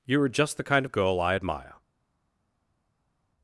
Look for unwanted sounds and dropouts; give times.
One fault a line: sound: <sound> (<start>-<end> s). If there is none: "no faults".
no faults